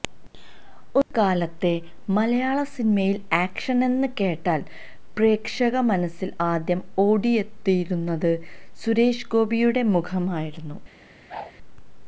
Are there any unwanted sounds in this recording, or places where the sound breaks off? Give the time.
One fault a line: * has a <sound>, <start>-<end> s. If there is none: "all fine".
* has a whoosh, 11.3-11.5 s